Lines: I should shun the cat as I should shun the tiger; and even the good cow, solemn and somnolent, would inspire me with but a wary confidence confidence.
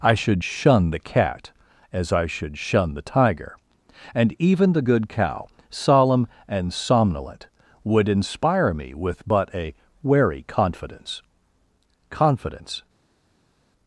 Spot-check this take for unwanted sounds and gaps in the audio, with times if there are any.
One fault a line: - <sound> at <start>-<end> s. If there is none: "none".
none